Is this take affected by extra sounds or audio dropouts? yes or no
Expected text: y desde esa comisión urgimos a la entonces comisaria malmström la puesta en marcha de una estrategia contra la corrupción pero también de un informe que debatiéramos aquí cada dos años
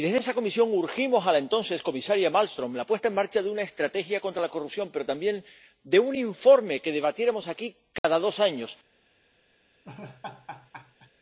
yes